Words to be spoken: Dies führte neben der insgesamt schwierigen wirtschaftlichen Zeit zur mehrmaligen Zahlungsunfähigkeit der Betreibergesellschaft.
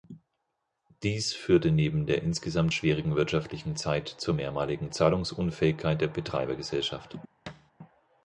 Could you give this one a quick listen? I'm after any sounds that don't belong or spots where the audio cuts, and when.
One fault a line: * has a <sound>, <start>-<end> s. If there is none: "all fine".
* has a thud, 7.5-7.7 s